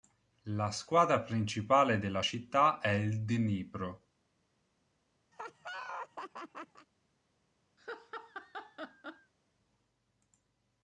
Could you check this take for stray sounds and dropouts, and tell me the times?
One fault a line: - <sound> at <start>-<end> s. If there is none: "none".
- laugh at 5.3-6.9 s
- laugh at 7.8-9.3 s